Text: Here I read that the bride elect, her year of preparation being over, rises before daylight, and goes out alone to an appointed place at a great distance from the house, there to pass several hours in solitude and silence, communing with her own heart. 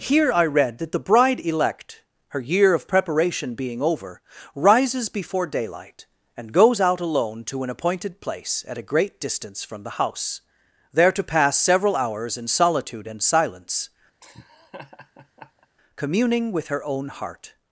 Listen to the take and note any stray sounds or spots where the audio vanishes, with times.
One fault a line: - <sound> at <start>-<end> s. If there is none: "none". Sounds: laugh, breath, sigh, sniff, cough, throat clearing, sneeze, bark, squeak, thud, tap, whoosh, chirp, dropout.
- laugh at 14.2-15.7 s